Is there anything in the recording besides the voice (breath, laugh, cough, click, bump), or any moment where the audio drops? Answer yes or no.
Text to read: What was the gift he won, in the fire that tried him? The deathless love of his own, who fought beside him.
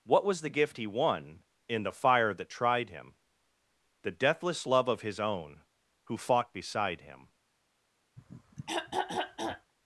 yes